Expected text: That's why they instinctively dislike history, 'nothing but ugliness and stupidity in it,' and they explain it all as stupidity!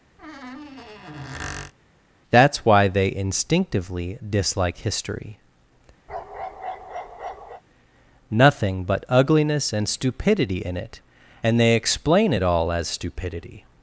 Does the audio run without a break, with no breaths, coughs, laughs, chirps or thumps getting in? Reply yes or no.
no